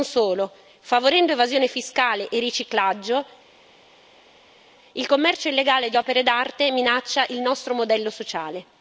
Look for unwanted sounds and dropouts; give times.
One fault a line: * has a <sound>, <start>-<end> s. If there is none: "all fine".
all fine